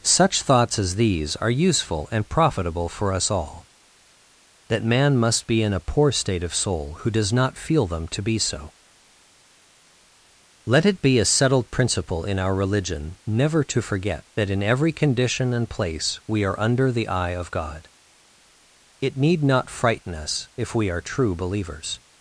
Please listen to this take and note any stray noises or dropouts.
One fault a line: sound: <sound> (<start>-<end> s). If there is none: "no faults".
no faults